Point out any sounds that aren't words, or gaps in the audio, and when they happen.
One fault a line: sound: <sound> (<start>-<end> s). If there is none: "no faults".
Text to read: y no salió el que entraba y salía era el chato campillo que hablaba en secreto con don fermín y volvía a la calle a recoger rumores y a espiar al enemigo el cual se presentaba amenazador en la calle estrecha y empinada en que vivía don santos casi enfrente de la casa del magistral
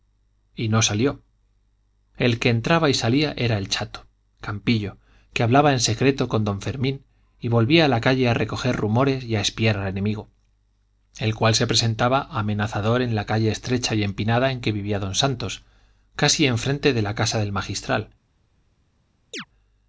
sound: chirp (19.3-19.5 s)